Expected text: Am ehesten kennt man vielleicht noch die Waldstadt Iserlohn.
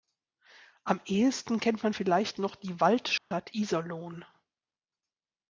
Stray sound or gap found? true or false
true